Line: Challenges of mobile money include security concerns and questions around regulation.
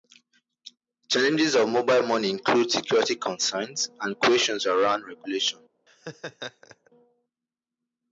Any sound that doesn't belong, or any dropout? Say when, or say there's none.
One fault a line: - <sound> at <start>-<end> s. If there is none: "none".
- laugh at 5.9-6.9 s